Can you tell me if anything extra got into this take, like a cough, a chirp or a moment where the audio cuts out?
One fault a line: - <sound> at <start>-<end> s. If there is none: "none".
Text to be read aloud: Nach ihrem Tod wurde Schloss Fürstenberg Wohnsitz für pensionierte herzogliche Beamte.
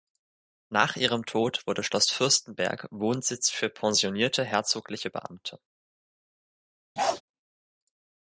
- bark at 7.0-7.2 s